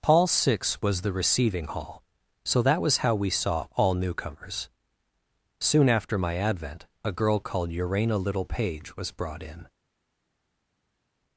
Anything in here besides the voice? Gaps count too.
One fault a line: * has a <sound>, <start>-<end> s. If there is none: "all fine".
all fine